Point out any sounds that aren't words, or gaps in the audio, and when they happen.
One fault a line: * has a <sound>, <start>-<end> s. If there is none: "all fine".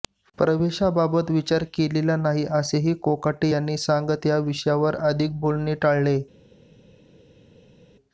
all fine